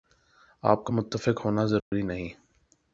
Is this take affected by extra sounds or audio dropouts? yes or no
yes